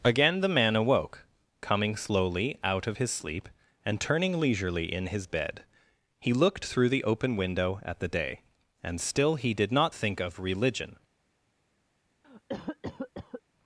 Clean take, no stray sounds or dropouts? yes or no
no